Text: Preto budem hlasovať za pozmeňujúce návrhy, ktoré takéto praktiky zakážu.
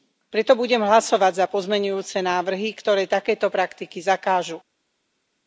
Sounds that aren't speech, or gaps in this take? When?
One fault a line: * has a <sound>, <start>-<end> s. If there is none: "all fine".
all fine